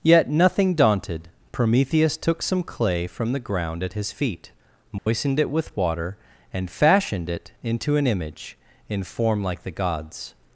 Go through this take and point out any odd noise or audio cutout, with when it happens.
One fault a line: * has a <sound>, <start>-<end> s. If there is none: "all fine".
* has a dropout, 5.0-5.1 s